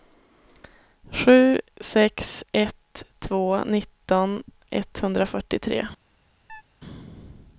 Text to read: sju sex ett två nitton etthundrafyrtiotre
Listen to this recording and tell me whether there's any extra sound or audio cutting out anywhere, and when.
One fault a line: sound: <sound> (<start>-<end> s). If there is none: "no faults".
sound: chirp (6.5-6.6 s)